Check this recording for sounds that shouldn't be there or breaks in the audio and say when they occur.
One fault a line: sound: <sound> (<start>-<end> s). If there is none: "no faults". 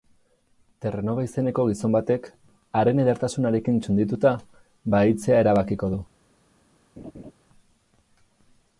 sound: laugh (7.0-7.3 s)